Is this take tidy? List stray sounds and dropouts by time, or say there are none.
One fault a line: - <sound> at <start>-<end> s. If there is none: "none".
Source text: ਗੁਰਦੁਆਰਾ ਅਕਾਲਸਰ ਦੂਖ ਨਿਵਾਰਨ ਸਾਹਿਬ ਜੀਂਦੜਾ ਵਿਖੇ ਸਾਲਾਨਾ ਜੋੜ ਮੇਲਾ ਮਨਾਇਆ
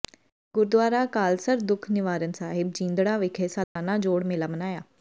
- dropout at 3.6-3.8 s